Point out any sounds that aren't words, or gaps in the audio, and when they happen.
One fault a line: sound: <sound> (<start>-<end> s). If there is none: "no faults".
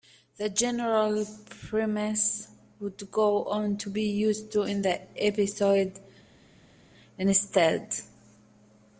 no faults